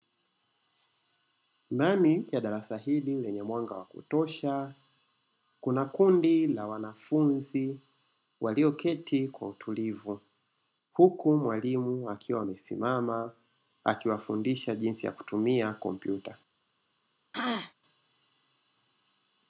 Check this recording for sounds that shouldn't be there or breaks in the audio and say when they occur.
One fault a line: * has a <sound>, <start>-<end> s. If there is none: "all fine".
* has a throat clearing, 17.3-17.7 s